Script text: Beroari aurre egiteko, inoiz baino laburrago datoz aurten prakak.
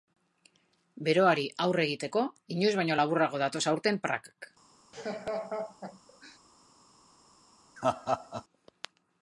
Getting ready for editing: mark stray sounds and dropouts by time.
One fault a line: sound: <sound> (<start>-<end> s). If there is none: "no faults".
sound: laugh (4.9-6.4 s)
sound: laugh (7.8-8.4 s)